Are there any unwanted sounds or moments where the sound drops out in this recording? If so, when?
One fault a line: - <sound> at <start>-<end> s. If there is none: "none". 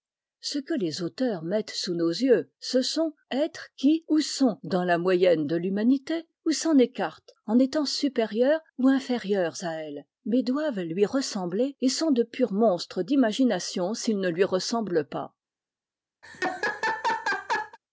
- laugh at 16.2-17.8 s